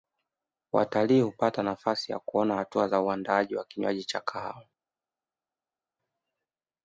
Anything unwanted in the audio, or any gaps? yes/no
no